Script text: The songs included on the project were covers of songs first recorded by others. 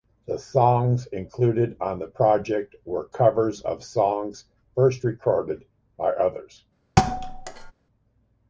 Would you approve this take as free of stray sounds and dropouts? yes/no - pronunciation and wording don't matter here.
no